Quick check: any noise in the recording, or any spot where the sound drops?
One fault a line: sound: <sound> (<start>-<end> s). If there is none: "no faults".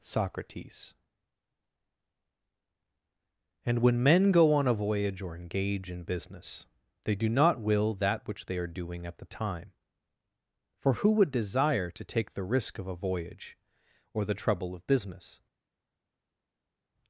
no faults